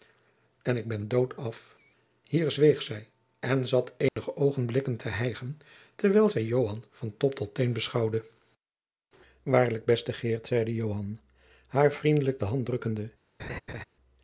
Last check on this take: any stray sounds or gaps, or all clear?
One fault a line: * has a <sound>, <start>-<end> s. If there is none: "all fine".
* has a dropout, 4.1-4.2 s
* has a laugh, 13.4-13.8 s